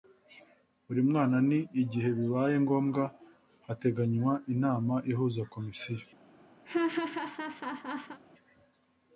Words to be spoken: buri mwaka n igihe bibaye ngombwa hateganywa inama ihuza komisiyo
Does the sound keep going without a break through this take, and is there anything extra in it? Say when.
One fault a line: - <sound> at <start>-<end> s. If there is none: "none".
- laugh at 6.6-8.2 s